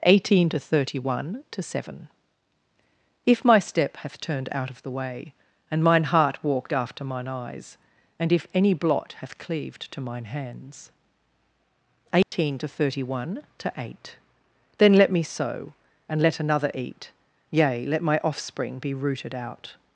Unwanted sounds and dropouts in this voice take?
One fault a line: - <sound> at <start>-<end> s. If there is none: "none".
- dropout at 12.2-12.3 s